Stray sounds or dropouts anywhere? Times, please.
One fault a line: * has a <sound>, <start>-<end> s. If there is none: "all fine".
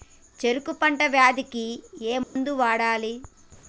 * has a dropout, 2.2-2.4 s